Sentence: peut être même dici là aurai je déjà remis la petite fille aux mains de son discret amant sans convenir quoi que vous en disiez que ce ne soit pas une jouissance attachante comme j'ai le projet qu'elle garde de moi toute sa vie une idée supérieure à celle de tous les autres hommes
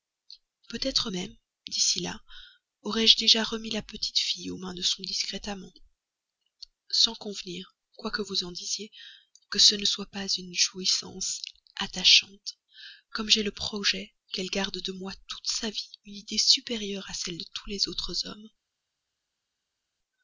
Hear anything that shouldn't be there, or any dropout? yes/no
no